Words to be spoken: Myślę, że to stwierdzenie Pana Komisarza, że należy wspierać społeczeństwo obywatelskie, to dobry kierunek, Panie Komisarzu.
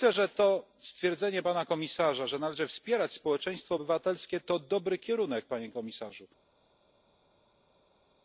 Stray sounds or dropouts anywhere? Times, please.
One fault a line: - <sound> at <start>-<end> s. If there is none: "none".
none